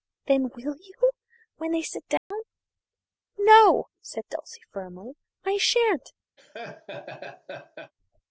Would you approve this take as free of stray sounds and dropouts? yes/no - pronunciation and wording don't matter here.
no